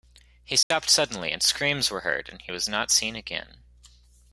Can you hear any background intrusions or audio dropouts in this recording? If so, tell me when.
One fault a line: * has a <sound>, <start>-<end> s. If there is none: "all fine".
* has a dropout, 0.6-0.7 s